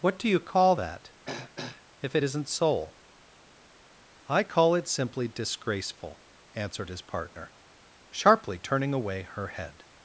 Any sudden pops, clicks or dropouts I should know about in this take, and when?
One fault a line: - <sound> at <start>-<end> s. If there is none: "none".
- throat clearing at 1.2-1.8 s